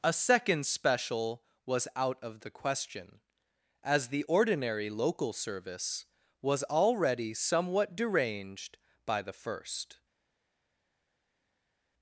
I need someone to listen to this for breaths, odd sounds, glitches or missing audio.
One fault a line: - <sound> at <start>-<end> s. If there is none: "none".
none